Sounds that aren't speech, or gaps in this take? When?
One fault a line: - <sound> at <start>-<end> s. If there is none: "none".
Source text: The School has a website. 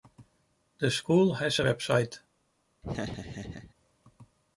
- laugh at 2.8-3.7 s